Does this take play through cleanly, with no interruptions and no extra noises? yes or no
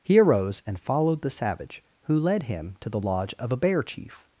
yes